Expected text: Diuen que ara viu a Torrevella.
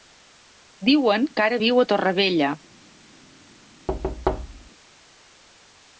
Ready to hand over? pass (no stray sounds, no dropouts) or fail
fail